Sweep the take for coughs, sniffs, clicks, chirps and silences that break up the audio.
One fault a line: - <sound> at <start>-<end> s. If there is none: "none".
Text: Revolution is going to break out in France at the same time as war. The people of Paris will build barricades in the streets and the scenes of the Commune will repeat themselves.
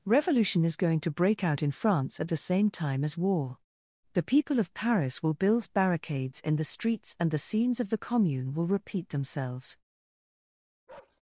- bark at 10.9-11.2 s